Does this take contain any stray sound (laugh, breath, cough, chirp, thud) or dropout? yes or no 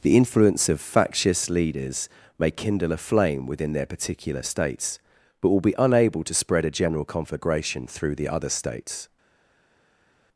no